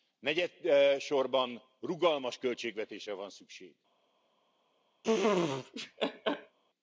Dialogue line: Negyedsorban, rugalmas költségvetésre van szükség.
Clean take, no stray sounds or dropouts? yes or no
no